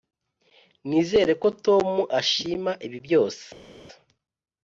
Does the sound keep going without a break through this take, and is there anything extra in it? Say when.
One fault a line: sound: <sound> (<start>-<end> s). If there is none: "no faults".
no faults